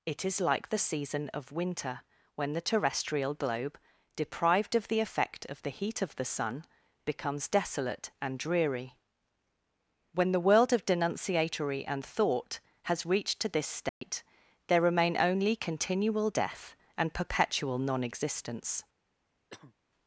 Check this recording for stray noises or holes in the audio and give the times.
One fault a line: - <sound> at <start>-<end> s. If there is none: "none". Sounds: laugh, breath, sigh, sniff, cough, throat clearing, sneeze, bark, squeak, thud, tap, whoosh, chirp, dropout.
- dropout at 13.9-14.0 s
- cough at 19.5-19.7 s